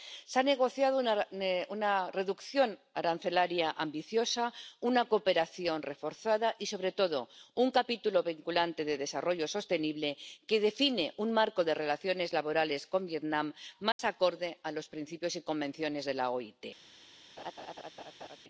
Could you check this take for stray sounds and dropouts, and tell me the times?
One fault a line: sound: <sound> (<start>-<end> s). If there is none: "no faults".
sound: dropout (13.9-14.0 s)
sound: laugh (17.4-18.4 s)